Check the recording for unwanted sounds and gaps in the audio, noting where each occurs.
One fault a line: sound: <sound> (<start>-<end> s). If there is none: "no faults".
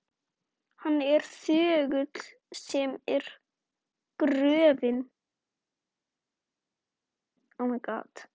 no faults